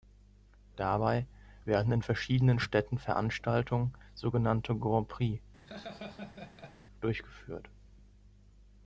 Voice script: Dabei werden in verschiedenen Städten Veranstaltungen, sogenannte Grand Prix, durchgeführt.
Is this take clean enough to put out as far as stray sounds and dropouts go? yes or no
no